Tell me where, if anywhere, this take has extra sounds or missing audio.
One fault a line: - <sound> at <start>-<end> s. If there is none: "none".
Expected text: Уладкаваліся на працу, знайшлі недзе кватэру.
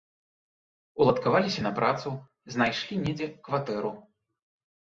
none